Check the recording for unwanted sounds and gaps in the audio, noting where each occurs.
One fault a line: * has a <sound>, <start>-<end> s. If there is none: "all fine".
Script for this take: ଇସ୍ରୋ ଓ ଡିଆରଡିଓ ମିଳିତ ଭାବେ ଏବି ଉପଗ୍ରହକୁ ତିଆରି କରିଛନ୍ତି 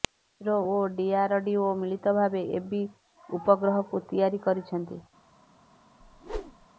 * has a whoosh, 6.0-6.7 s